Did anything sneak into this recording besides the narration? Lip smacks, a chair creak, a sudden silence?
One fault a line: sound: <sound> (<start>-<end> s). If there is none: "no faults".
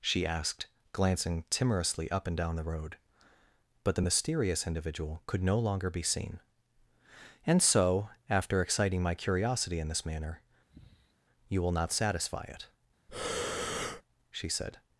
sound: sigh (10.7-11.1 s)
sound: breath (13.1-14.0 s)